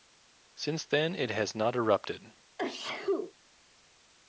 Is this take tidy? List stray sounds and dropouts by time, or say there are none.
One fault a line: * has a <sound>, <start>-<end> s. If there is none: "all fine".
* has a sneeze, 2.6-3.3 s